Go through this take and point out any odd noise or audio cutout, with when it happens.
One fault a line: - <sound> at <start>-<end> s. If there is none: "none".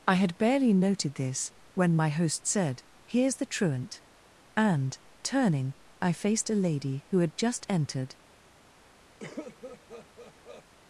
- cough at 9.2-10.6 s